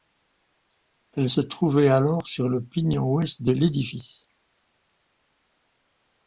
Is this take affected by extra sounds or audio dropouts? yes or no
no